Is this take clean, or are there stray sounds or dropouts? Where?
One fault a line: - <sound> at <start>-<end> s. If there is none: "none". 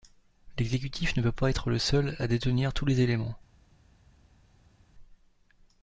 none